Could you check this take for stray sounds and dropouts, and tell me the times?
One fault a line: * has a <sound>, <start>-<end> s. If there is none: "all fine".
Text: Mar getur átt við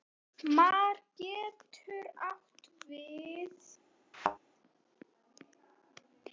* has a thud, 4.1-4.4 s